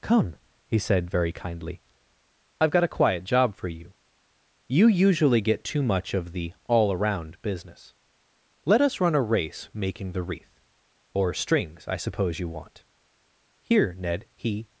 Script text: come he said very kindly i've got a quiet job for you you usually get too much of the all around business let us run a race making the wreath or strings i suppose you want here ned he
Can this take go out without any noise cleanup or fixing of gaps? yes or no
yes